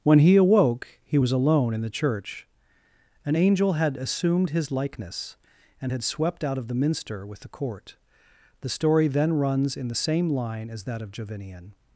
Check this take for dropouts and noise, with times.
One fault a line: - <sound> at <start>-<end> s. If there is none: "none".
none